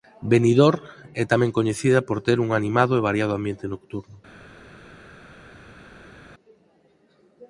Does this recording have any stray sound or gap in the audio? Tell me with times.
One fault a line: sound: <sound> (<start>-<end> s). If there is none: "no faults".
no faults